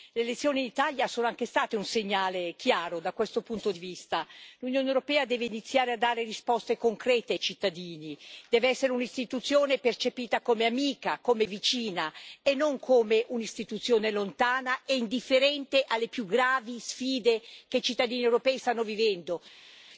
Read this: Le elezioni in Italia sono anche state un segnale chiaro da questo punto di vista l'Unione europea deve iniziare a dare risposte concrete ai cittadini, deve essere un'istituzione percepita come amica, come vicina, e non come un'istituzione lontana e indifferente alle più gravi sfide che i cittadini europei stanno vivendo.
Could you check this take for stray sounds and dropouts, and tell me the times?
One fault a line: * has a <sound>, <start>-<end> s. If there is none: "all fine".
all fine